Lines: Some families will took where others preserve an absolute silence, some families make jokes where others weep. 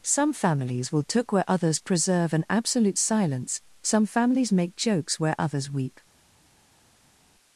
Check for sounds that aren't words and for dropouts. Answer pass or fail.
pass